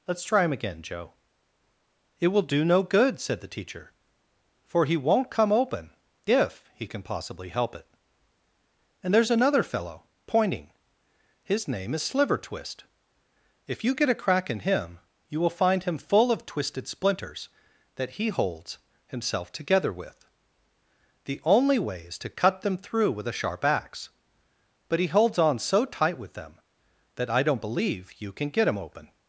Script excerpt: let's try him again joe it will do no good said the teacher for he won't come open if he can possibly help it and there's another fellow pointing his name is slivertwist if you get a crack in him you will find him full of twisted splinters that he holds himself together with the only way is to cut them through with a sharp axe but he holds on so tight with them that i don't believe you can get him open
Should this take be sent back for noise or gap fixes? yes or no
no